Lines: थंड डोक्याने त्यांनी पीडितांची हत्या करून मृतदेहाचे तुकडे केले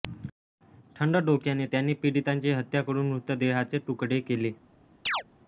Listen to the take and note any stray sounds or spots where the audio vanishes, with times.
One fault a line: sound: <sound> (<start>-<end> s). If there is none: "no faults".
sound: chirp (5.1-5.2 s)